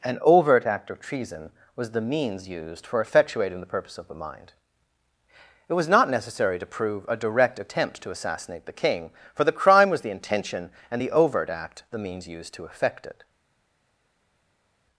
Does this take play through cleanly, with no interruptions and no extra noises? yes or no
yes